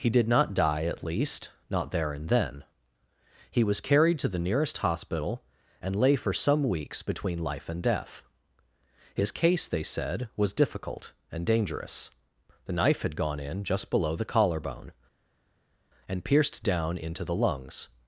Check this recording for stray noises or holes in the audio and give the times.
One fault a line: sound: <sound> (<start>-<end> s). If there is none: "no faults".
no faults